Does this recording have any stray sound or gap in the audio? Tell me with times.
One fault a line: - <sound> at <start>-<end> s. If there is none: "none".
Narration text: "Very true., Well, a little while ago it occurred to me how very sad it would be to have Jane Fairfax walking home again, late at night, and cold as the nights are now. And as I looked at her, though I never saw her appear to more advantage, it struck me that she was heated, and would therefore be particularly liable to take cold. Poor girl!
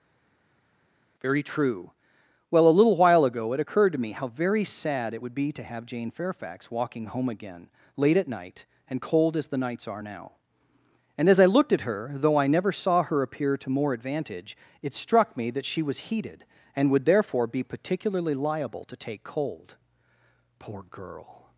none